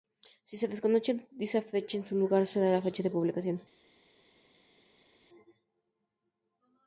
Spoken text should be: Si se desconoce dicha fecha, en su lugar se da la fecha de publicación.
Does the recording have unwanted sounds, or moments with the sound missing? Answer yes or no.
no